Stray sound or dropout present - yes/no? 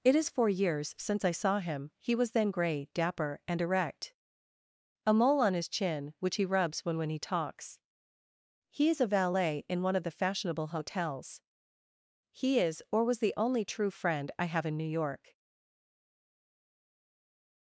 no